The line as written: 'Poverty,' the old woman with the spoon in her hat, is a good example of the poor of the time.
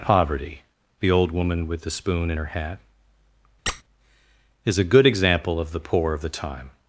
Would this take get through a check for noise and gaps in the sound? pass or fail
fail